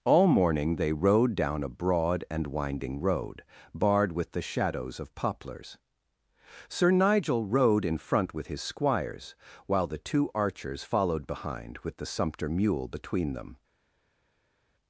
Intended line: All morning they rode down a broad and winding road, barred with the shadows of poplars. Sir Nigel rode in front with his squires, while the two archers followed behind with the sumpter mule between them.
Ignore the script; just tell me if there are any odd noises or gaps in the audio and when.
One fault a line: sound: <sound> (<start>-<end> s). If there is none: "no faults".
no faults